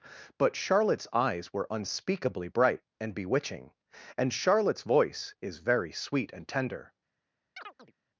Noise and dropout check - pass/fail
fail